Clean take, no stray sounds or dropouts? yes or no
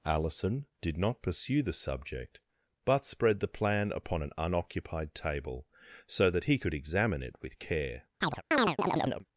no